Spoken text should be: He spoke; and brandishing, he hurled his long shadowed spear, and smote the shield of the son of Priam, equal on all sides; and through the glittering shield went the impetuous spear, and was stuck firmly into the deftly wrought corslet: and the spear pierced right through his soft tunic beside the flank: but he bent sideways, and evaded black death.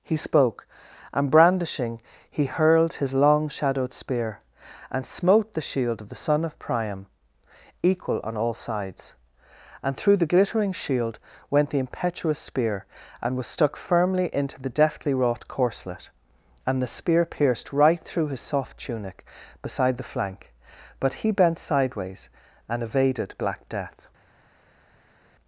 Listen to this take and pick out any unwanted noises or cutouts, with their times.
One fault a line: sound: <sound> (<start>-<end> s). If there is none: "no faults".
no faults